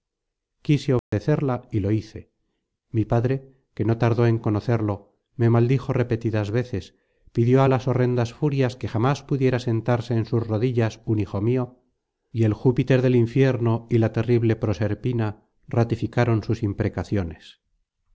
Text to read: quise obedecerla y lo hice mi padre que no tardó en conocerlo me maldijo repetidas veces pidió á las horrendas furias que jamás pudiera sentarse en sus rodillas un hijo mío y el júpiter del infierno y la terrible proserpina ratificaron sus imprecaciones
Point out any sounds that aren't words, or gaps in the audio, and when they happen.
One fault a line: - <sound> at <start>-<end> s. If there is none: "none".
- dropout at 1.0-1.1 s